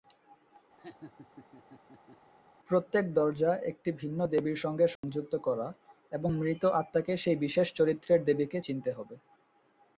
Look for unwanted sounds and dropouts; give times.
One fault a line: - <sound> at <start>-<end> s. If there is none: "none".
- laugh at 0.8-2.3 s
- dropout at 5.0-5.0 s